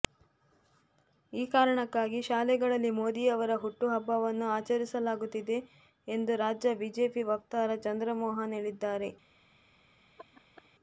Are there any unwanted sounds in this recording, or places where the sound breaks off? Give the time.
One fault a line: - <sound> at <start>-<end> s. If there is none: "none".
- laugh at 10.2-10.7 s